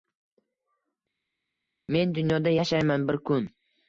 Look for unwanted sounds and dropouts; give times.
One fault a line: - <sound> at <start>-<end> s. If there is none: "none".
none